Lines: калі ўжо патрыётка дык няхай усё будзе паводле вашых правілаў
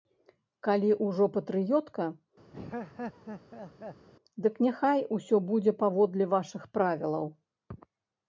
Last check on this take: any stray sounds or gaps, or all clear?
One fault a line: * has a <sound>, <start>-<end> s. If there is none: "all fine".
* has a laugh, 2.5-4.1 s